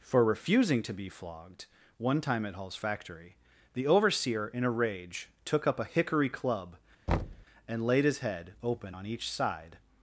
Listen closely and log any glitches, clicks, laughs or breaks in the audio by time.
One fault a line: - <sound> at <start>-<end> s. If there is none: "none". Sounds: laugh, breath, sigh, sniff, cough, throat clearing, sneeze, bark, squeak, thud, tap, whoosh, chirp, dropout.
- thud at 7.1-7.5 s